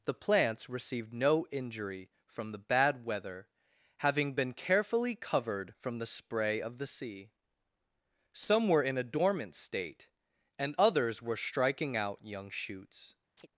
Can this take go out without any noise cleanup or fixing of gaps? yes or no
no